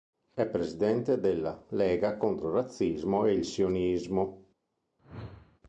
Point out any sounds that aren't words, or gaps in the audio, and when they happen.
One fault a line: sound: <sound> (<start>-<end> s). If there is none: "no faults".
sound: whoosh (5.0-5.6 s)